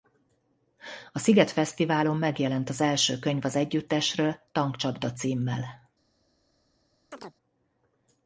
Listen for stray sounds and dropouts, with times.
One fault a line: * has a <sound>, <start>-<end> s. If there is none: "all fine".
* has a chirp, 7.1-7.3 s